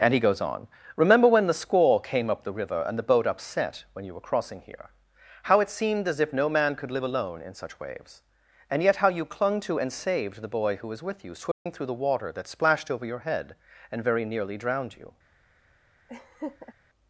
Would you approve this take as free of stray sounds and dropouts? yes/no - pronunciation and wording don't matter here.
no